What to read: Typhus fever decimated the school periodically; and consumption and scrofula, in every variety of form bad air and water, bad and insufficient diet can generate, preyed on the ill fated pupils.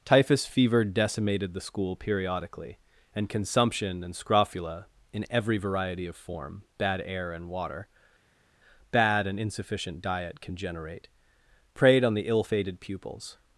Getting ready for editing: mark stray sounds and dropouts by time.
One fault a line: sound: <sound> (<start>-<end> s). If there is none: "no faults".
no faults